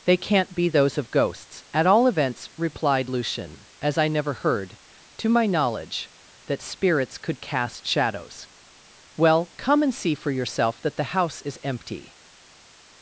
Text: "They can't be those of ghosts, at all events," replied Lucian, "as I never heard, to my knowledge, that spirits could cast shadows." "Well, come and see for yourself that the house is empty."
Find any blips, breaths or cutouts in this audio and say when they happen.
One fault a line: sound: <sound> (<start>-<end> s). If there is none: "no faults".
no faults